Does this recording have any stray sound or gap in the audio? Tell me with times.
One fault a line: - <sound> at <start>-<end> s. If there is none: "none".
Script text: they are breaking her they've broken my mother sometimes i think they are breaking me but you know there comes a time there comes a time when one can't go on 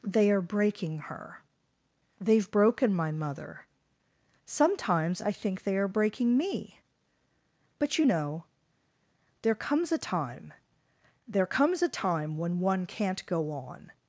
none